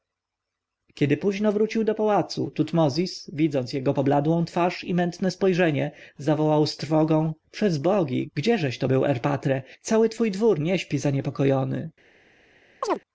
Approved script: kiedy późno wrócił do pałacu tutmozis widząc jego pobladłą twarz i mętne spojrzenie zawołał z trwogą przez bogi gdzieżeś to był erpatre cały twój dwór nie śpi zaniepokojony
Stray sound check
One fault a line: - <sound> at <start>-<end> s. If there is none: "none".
- chirp at 12.8-13.0 s